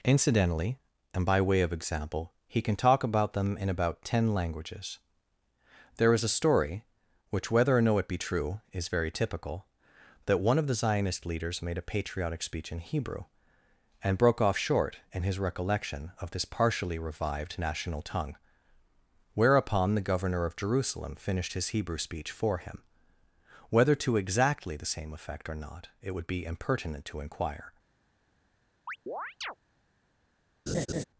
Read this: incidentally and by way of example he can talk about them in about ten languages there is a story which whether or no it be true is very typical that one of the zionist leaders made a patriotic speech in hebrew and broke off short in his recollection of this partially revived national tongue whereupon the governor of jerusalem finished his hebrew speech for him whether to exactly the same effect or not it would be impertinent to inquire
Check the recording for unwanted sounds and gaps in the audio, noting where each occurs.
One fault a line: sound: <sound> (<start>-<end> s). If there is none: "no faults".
sound: chirp (28.9-29.6 s)
sound: laugh (30.7-31.0 s)